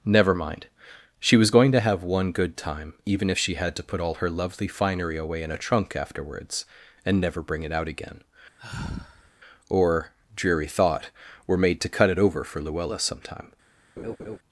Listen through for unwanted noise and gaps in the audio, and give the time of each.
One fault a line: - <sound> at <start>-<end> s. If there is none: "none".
- sigh at 8.6-9.3 s
- laugh at 14.0-14.4 s